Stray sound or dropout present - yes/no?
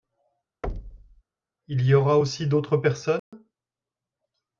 yes